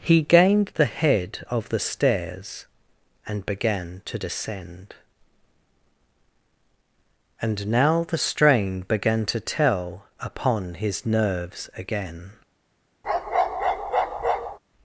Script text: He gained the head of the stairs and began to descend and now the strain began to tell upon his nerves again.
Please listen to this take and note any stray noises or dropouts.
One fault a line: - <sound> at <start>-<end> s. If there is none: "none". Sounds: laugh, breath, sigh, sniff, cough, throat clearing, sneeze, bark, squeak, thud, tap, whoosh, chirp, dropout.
- bark at 13.0-14.6 s